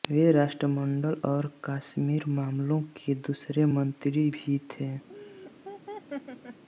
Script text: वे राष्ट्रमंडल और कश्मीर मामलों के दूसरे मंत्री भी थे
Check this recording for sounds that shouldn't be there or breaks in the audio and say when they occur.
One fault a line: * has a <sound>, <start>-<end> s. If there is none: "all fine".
* has a laugh, 5.1-6.6 s